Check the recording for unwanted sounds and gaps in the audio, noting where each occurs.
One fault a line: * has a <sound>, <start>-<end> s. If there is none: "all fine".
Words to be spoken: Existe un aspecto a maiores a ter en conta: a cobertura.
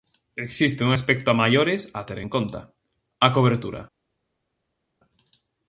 all fine